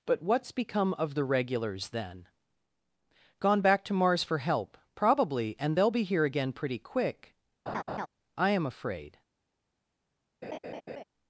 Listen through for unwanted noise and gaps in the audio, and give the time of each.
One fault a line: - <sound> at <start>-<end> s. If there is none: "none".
- laugh at 7.7-8.1 s
- laugh at 10.4-11.0 s